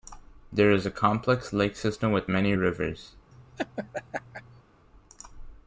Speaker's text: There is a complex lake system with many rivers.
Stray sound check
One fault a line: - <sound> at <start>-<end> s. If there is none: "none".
- laugh at 3.3-4.6 s